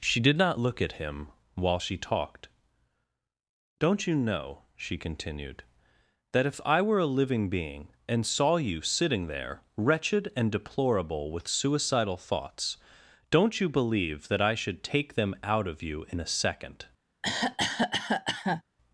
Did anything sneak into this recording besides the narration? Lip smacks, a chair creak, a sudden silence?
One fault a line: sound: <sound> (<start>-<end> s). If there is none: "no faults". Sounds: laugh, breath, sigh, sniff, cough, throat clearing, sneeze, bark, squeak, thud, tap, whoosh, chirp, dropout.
sound: cough (17.2-18.6 s)